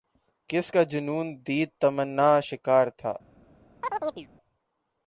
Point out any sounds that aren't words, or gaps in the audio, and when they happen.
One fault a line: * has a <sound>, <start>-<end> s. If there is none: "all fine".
* has a chirp, 3.8-4.3 s